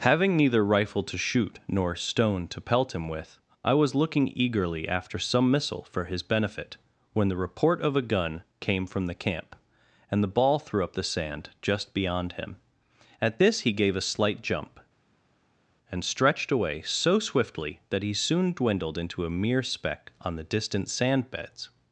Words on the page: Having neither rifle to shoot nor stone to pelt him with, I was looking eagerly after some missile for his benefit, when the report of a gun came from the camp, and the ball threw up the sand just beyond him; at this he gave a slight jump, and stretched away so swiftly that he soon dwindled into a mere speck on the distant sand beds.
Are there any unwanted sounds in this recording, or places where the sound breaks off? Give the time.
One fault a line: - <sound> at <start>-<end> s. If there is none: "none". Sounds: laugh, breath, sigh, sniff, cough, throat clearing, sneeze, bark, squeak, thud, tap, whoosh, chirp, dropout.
none